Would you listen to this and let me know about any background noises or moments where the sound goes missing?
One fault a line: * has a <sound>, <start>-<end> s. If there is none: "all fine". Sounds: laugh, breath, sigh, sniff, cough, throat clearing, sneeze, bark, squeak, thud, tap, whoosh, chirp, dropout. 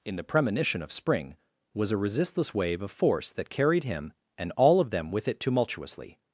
all fine